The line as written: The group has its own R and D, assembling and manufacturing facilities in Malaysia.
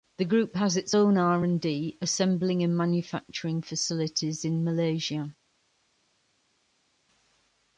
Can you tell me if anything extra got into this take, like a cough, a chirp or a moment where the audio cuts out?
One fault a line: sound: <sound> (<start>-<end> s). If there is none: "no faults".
no faults